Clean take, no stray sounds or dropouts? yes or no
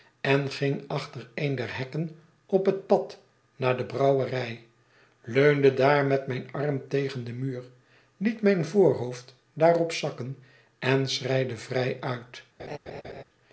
no